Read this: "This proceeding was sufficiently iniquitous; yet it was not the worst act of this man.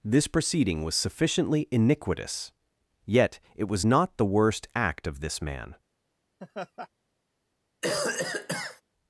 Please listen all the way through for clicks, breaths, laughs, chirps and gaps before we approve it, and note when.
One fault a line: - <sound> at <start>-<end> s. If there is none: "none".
- laugh at 6.4-6.9 s
- cough at 7.8-8.8 s